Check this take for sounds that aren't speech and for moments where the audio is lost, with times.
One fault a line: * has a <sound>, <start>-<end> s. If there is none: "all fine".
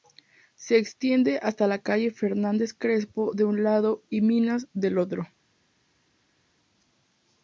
all fine